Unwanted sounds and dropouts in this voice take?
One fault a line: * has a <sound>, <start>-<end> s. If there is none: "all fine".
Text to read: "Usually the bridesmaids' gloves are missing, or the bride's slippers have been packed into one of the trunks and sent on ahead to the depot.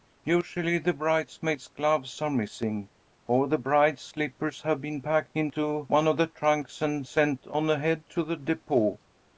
all fine